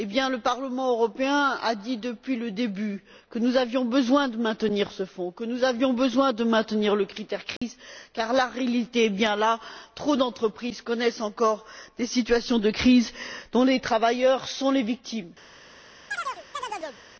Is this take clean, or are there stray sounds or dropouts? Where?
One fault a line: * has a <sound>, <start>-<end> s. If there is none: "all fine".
* has a dropout, 7.6-7.6 s
* has a chirp, 16.1-17.0 s